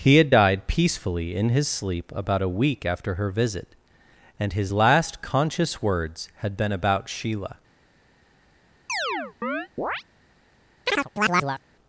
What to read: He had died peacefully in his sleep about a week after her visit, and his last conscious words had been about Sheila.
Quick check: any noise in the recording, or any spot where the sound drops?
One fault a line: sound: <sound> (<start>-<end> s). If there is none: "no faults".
sound: chirp (8.9-10.0 s)
sound: chirp (10.9-11.6 s)